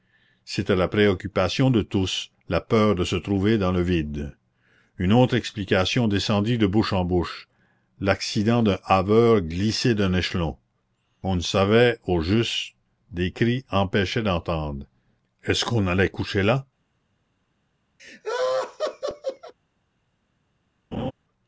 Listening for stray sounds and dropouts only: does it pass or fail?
fail